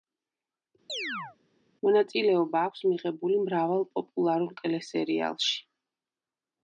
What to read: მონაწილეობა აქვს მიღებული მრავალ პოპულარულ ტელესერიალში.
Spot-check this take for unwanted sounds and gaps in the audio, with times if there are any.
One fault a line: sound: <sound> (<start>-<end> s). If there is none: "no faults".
sound: chirp (0.9-1.4 s)